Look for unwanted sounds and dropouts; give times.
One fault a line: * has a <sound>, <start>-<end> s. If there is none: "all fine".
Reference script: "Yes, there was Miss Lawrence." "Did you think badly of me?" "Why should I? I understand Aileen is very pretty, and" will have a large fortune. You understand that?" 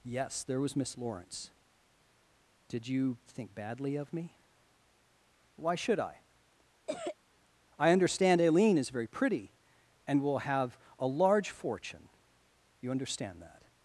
* has a cough, 6.9-7.2 s